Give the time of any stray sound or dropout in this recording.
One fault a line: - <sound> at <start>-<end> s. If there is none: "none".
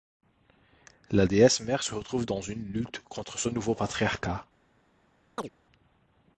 - chirp at 5.4-5.5 s